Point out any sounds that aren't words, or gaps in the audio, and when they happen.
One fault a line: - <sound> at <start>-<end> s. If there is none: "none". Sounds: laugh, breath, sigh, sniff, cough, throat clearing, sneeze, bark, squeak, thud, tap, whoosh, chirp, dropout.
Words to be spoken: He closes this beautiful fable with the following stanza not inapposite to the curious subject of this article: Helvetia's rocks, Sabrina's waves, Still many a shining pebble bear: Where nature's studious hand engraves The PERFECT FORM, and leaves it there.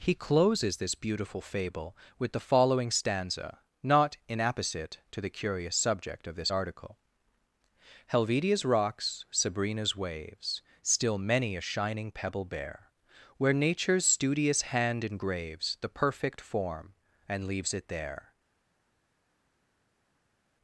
none